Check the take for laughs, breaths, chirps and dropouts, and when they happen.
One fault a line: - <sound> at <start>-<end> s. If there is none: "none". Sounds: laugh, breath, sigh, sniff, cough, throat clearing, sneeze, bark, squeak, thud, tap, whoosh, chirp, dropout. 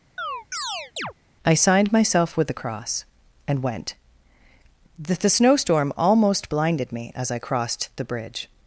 - chirp at 0.2-1.1 s